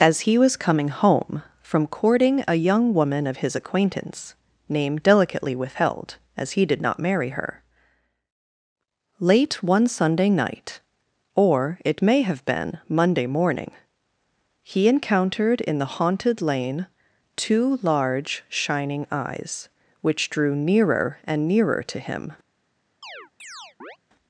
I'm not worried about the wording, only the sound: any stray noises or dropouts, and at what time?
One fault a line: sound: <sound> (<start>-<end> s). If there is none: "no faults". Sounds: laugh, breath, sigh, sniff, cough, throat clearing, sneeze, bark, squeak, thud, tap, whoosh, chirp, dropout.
sound: chirp (23.0-24.0 s)